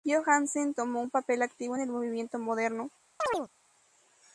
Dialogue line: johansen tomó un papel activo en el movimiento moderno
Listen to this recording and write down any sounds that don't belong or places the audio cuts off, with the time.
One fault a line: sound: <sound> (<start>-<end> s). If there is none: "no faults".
sound: chirp (3.2-3.5 s)